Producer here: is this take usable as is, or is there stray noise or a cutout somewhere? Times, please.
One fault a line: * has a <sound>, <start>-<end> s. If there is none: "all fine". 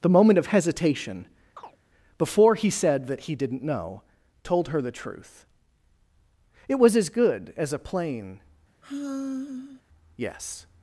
* has a chirp, 1.6-1.8 s
* has a sigh, 8.8-9.8 s